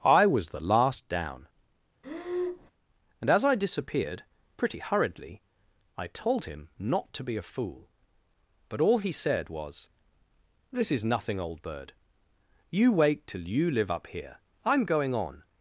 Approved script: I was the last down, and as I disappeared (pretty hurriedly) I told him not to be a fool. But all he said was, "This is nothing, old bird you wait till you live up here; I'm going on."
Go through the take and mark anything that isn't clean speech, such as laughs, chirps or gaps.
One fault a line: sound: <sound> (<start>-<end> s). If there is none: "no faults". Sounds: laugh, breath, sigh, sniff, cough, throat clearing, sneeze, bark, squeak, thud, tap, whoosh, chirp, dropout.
sound: breath (2.0-2.7 s)